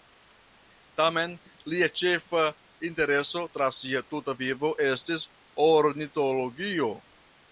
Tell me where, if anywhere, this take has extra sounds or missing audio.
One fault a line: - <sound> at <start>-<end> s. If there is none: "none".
none